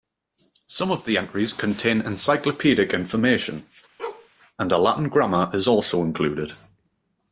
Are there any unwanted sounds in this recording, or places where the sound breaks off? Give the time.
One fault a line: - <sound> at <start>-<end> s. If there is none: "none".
- bark at 4.0-4.3 s